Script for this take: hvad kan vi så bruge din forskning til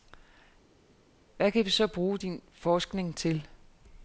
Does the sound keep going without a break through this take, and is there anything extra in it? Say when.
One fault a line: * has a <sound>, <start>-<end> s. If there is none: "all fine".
all fine